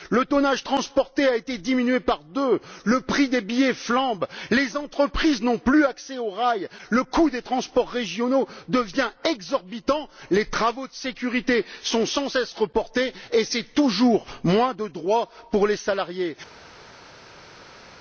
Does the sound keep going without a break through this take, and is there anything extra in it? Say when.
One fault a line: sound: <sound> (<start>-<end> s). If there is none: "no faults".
no faults